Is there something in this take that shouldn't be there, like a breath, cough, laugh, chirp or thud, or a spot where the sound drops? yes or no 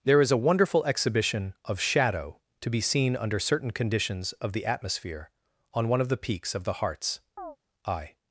yes